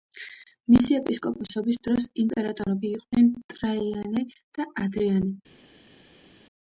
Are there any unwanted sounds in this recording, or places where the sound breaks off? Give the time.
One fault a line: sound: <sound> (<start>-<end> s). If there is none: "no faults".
no faults